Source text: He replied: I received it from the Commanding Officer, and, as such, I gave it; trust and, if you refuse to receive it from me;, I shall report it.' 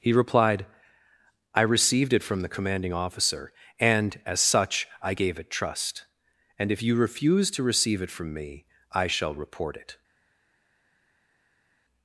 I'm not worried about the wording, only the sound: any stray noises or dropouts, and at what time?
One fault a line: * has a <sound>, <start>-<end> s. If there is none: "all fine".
all fine